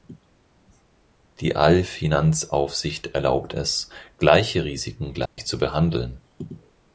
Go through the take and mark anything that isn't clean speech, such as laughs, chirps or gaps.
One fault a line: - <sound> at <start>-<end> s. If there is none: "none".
- dropout at 5.3-5.4 s